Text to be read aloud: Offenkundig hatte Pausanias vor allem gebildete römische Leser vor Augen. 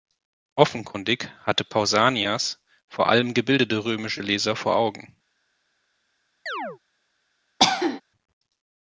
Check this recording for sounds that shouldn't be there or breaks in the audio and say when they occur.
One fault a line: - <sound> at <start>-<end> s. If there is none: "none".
- chirp at 6.5-6.8 s
- cough at 7.6-8.0 s